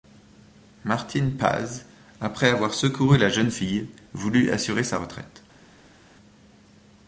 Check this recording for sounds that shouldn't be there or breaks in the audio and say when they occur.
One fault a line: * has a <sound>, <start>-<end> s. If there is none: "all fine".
all fine